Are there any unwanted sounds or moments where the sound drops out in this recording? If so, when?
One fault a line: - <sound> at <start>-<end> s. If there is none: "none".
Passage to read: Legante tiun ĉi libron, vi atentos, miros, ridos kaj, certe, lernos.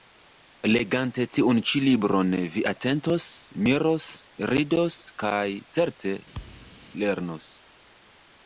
- thud at 6.3-6.9 s